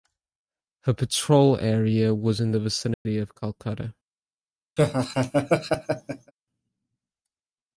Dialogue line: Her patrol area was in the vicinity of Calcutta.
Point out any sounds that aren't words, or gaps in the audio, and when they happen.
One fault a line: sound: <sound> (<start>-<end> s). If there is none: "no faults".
sound: dropout (2.9-3.1 s)
sound: laugh (4.8-6.3 s)